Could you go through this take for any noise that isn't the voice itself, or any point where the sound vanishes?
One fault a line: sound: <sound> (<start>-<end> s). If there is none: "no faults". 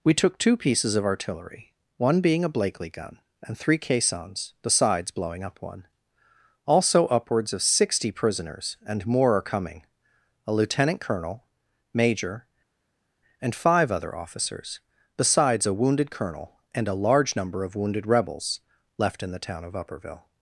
no faults